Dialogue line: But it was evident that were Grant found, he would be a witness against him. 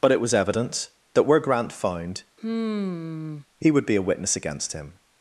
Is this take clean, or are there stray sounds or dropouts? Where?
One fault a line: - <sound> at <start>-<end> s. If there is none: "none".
- sigh at 2.4-3.5 s